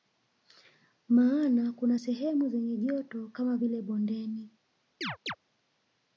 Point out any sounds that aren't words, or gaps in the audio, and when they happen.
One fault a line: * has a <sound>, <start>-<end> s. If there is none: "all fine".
* has a chirp, 5.0-5.4 s